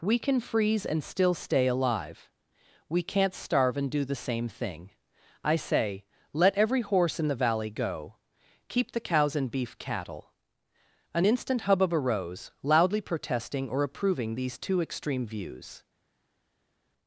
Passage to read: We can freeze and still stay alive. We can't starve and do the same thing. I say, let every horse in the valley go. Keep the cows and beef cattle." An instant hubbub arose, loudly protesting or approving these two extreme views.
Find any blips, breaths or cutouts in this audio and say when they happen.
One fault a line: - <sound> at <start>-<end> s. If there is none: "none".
none